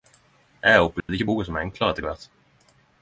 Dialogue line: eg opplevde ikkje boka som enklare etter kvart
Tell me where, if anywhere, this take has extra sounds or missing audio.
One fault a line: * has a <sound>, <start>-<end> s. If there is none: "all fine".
* has a dropout, 1.0-1.1 s